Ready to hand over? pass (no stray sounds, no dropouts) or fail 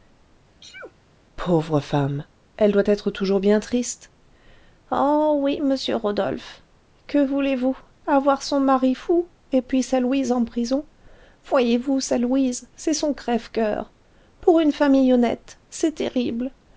fail